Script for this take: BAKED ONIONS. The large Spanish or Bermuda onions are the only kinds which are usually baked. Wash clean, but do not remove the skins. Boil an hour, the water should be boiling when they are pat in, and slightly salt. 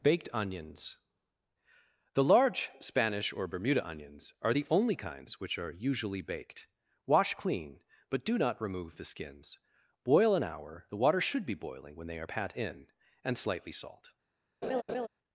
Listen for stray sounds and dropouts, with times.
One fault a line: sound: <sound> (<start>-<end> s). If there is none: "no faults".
sound: laugh (14.6-15.1 s)